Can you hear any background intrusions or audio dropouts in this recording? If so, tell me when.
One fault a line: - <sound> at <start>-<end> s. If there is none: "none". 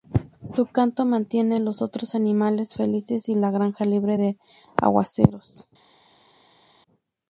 none